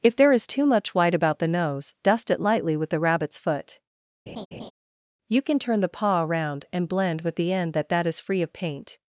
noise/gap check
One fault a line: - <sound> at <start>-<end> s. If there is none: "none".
- laugh at 4.3-4.7 s